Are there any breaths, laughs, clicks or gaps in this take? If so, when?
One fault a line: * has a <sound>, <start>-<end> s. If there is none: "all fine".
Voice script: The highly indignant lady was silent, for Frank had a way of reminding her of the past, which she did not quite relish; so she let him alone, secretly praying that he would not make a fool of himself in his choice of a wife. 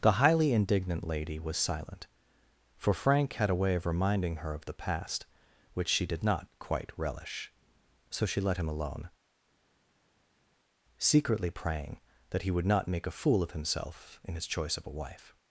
all fine